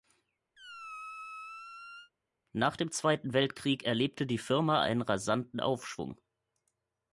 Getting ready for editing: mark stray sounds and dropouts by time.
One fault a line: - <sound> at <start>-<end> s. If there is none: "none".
- squeak at 0.6-2.1 s